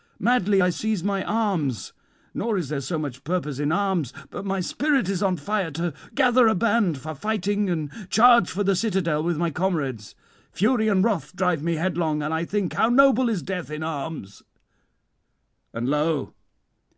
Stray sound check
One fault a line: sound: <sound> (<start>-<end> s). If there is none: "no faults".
no faults